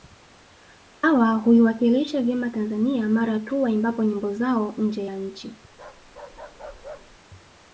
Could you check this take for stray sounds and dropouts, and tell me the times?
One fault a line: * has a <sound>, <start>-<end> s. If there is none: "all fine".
* has a bark, 5.7-7.2 s